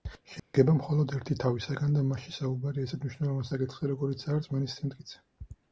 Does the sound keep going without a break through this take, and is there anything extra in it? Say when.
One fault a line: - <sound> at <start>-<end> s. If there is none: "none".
- dropout at 0.4-0.5 s